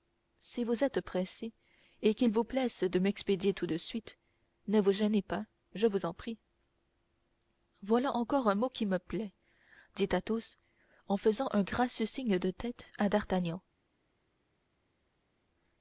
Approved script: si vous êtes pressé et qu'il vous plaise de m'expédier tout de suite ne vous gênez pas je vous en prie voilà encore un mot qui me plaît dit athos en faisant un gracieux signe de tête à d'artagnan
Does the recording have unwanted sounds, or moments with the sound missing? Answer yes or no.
no